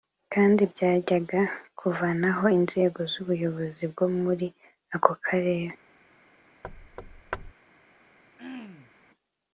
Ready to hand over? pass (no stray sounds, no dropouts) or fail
fail